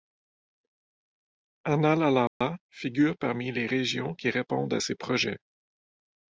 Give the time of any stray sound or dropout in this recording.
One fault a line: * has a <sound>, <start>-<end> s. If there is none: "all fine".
* has a dropout, 2.3-2.4 s